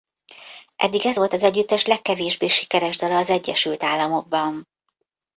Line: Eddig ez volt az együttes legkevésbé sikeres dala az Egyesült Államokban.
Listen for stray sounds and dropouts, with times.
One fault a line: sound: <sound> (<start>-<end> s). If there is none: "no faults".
no faults